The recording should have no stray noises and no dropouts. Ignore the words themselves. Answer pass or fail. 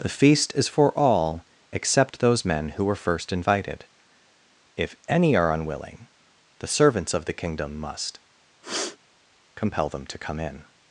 fail